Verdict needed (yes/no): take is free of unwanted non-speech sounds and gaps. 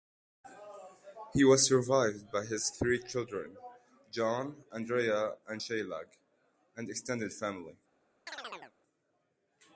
no